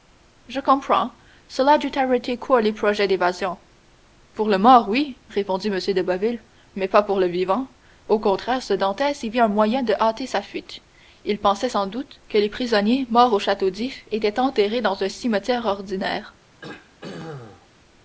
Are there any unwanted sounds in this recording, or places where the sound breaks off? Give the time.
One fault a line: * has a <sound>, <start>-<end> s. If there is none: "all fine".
* has a throat clearing, 16.6-17.7 s